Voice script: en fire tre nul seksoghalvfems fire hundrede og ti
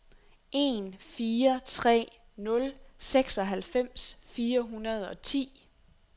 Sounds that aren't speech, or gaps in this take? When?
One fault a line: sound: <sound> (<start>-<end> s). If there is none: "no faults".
no faults